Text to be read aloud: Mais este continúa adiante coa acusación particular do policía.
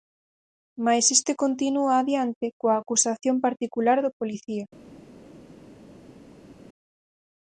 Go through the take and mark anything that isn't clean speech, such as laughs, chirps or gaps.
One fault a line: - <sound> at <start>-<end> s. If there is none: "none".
none